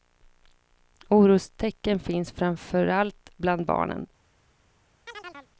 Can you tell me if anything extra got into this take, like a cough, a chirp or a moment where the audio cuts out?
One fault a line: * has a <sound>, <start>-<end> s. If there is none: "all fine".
* has a chirp, 5.1-5.5 s